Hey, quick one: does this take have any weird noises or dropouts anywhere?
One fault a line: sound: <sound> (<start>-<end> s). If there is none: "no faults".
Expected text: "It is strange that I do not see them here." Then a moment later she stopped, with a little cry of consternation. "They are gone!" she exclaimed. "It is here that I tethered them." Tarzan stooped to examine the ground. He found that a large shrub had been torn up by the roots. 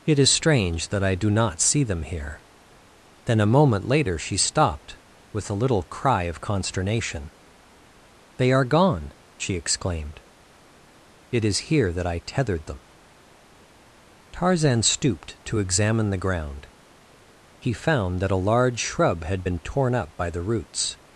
no faults